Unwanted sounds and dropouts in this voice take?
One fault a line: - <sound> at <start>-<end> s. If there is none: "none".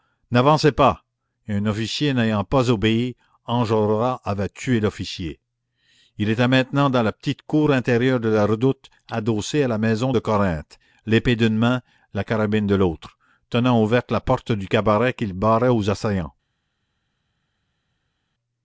none